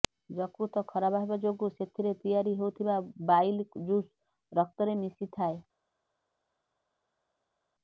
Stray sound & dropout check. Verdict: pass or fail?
pass